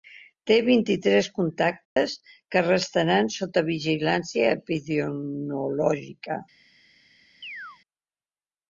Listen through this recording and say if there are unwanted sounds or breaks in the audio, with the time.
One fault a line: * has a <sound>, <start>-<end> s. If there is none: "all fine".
* has a dropout, 1.9-2.0 s
* has a chirp, 7.4-7.8 s